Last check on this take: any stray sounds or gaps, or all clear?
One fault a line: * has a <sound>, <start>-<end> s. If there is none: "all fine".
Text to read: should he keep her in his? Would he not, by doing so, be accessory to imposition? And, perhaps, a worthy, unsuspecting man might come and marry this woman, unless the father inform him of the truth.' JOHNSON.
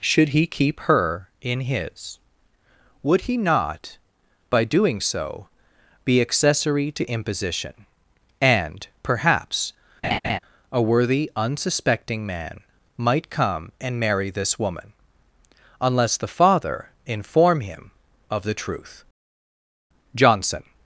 * has a laugh, 10.0-10.4 s